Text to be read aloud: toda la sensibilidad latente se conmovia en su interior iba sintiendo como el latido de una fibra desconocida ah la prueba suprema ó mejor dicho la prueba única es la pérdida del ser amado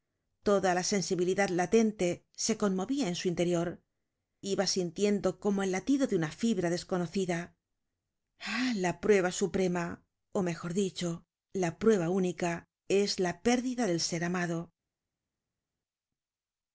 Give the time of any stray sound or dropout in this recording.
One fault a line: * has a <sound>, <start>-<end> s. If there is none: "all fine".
all fine